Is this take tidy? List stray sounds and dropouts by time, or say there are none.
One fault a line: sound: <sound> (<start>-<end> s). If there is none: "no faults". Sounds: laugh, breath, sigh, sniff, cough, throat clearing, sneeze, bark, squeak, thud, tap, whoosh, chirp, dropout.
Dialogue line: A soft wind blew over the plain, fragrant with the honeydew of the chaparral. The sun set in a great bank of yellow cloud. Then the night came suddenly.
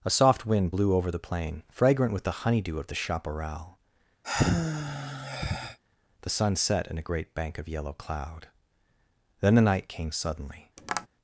sound: sigh (4.2-5.8 s)
sound: tap (10.8-11.1 s)